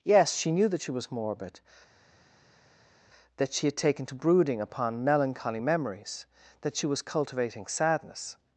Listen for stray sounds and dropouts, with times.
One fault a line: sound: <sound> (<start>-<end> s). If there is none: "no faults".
no faults